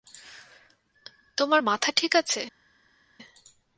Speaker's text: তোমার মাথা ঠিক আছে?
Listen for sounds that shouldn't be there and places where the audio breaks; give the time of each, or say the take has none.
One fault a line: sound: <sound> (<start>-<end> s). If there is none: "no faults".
no faults